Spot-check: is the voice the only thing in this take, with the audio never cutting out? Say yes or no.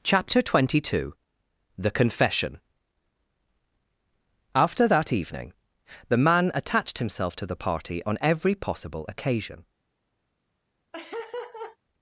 no